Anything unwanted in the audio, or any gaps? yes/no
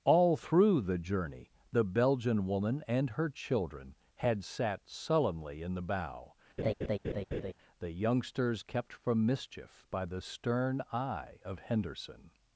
yes